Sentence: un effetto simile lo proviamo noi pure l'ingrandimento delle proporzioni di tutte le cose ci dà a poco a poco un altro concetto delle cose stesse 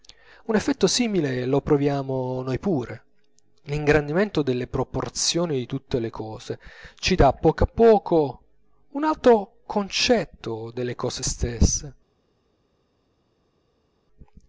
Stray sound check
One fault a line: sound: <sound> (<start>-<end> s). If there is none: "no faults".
no faults